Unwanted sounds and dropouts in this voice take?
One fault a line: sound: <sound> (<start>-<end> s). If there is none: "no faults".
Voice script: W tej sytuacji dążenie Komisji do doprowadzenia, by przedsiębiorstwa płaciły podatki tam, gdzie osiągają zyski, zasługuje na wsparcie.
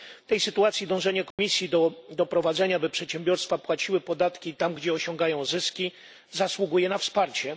sound: dropout (1.3-1.4 s)